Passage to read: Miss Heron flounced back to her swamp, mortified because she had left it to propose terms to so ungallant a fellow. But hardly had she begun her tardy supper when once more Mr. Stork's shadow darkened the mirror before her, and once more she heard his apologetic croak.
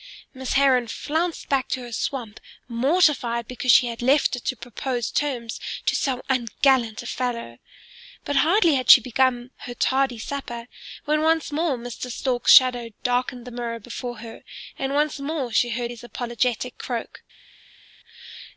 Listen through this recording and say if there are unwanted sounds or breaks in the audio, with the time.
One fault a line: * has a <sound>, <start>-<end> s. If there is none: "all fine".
all fine